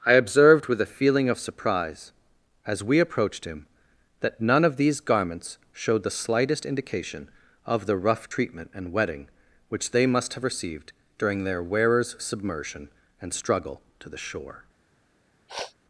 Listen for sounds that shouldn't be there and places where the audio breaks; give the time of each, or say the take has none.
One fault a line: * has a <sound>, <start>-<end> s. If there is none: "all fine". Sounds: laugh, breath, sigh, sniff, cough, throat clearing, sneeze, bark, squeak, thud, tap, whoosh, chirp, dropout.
* has a sniff, 15.5-15.7 s